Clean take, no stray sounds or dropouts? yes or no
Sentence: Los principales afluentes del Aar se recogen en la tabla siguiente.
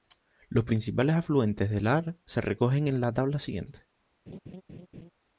no